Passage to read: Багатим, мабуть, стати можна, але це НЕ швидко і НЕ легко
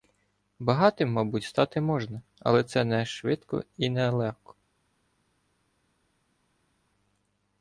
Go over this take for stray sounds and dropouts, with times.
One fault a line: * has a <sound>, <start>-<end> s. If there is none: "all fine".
all fine